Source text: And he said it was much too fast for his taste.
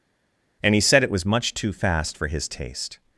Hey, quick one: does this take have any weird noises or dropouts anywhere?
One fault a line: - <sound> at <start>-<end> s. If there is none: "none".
none